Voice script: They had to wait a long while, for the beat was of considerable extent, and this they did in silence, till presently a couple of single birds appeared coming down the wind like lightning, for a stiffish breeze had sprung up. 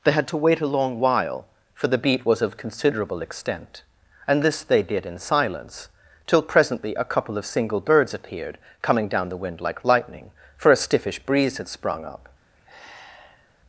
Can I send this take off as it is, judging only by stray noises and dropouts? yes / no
no